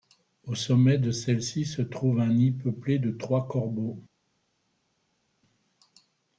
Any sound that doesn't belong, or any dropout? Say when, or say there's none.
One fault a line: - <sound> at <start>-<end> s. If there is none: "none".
none